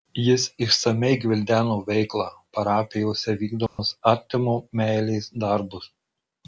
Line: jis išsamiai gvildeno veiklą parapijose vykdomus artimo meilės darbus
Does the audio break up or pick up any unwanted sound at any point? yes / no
yes